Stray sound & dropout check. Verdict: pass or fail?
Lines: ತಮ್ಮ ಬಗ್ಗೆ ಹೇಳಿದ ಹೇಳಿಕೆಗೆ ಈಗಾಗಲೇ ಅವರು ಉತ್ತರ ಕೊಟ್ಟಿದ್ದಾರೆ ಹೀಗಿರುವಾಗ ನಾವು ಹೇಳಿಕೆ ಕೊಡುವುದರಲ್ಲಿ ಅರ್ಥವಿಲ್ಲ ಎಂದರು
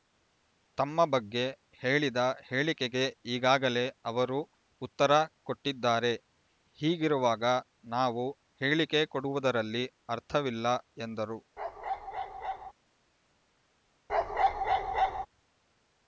fail